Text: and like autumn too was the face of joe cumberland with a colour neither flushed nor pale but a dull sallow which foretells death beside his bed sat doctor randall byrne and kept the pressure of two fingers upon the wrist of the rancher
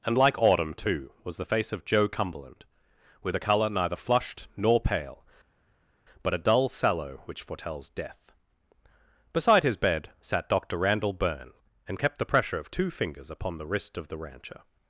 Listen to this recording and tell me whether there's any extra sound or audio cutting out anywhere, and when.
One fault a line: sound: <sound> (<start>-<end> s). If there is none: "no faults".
no faults